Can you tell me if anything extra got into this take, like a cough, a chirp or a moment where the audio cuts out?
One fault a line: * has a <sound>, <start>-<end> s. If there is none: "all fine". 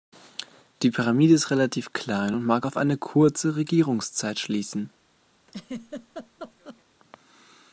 * has a laugh, 5.5-6.8 s